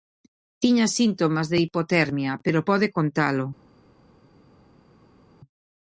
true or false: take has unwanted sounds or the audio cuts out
false